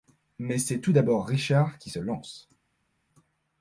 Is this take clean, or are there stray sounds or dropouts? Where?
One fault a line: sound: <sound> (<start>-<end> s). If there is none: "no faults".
no faults